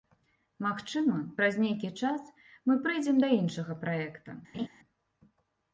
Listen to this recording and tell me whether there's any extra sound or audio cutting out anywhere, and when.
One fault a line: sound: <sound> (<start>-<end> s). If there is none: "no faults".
sound: laugh (4.5-4.7 s)